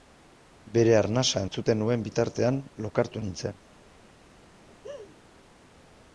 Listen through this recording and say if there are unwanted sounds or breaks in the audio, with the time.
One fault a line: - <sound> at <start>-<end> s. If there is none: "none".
- laugh at 4.7-5.2 s